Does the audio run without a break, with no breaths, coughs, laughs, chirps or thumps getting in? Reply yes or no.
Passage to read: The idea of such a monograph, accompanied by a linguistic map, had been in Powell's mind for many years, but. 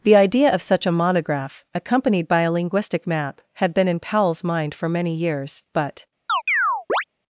no